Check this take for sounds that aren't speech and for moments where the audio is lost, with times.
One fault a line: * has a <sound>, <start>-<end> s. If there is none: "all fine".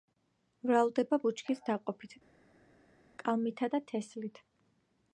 all fine